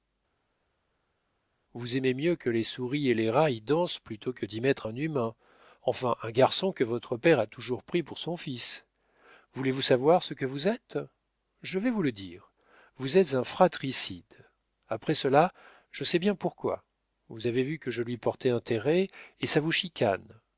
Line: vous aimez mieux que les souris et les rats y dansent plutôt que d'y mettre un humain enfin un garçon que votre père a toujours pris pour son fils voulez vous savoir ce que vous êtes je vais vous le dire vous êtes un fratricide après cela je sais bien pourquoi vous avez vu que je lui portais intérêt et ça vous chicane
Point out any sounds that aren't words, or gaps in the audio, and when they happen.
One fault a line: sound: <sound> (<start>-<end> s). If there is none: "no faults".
no faults